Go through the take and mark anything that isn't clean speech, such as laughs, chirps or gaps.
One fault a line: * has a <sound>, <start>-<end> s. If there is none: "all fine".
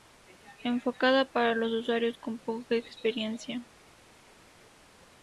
all fine